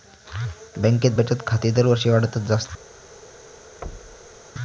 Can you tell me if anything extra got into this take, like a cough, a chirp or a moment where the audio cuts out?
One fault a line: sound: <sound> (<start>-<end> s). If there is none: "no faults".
sound: thud (3.8-4.4 s)